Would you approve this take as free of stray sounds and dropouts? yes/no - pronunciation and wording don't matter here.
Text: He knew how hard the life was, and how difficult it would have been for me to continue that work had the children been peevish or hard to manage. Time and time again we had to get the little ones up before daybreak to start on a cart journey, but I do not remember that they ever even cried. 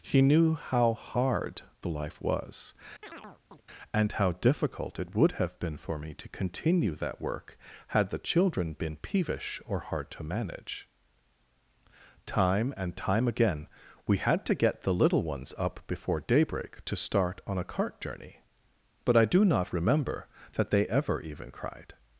no